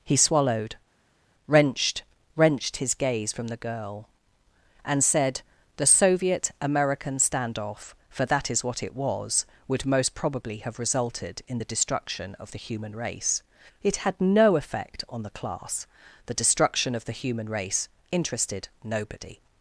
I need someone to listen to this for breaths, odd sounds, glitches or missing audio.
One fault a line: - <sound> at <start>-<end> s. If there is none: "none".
none